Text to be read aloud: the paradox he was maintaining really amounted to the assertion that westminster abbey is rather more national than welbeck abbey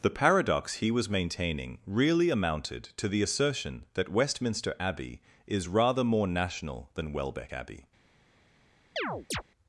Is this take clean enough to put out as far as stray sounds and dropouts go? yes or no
no